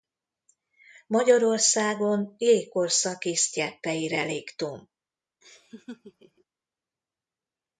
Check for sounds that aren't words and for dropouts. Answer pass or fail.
fail